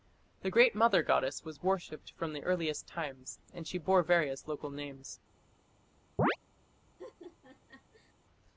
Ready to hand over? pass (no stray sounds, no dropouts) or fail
fail